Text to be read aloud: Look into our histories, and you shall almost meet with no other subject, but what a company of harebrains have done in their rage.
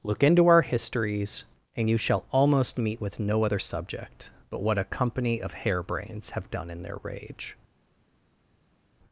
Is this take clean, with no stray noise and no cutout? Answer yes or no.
yes